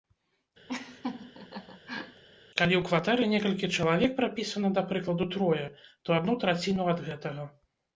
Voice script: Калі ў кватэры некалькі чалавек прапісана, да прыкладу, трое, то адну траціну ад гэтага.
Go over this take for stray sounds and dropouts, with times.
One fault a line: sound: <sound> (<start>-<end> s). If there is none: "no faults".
sound: laugh (0.7-2.2 s)